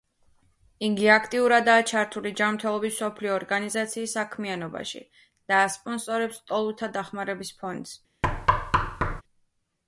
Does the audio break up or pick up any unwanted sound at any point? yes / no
yes